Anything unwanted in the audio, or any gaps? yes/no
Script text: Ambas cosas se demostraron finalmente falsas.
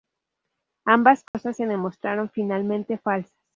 yes